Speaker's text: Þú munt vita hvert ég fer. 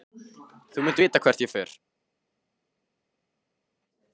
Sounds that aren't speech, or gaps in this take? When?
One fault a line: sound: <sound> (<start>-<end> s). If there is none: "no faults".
no faults